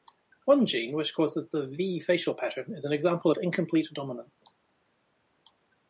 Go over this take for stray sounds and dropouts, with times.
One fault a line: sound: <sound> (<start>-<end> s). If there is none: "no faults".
no faults